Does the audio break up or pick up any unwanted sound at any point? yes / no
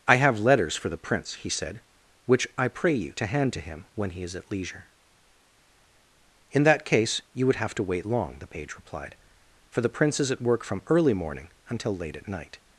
no